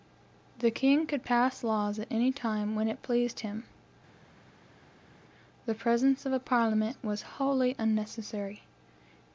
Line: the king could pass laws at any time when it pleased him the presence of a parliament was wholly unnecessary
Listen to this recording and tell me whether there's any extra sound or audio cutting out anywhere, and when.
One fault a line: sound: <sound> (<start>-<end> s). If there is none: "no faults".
no faults